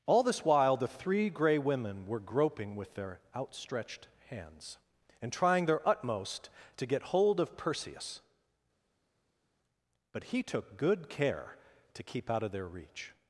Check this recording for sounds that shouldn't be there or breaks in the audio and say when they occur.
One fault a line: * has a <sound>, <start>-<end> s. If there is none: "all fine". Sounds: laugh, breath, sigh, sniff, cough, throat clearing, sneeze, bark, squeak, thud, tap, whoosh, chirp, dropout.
all fine